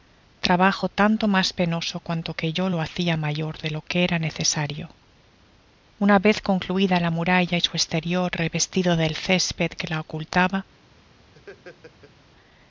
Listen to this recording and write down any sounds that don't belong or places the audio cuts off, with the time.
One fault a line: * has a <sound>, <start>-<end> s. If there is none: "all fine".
* has a laugh, 11.3-12.1 s